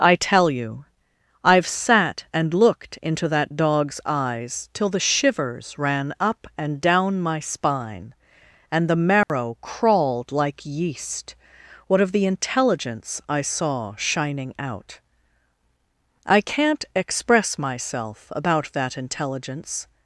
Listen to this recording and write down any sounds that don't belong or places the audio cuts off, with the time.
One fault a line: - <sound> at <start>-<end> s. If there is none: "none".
- dropout at 9.2-9.3 s